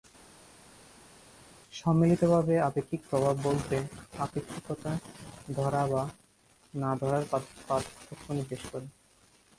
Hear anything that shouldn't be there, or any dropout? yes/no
no